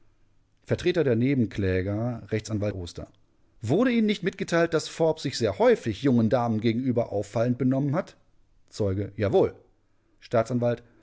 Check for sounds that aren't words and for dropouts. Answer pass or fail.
pass